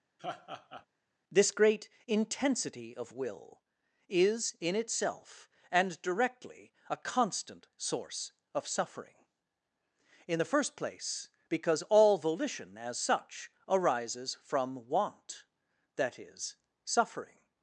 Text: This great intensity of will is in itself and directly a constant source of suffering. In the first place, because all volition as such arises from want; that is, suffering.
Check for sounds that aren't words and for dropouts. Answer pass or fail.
fail